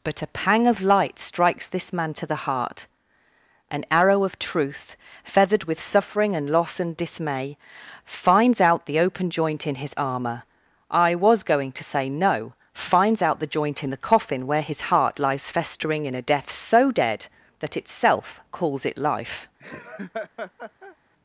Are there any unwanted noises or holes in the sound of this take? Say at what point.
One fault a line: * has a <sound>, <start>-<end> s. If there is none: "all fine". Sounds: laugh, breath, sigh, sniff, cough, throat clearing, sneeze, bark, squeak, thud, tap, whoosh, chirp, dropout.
* has a laugh, 19.6-21.0 s